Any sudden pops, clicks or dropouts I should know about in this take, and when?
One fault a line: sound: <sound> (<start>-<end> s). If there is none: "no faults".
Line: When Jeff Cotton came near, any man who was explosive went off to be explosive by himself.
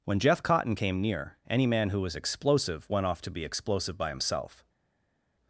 no faults